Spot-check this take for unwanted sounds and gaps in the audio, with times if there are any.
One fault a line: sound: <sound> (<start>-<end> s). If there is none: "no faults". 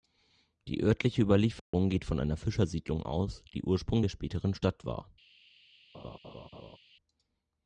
sound: dropout (1.6-1.7 s)
sound: laugh (5.9-6.8 s)